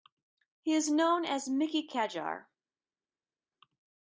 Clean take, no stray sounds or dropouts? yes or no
yes